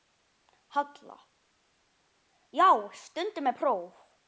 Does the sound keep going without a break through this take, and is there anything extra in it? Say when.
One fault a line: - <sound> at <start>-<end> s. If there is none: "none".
none